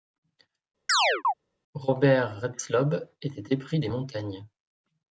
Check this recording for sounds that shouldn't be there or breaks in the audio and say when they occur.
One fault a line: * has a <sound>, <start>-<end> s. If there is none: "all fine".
* has a chirp, 0.9-1.3 s